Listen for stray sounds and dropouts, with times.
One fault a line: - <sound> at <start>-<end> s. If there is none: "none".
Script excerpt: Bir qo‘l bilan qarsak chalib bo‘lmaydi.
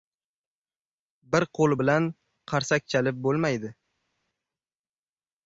none